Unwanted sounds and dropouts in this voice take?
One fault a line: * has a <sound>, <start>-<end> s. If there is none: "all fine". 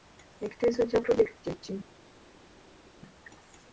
all fine